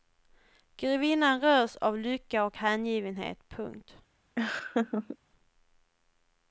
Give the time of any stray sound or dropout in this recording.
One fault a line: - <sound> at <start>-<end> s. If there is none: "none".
- laugh at 4.4-5.2 s